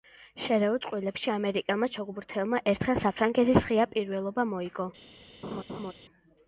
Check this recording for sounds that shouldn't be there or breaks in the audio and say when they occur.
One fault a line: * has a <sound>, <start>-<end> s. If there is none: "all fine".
* has a laugh, 5.4-5.9 s